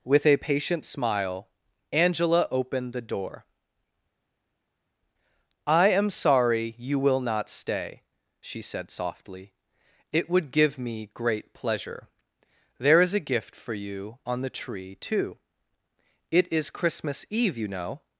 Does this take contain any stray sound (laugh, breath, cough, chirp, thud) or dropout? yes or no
no